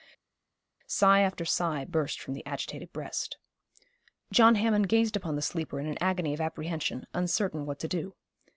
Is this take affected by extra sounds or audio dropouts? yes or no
no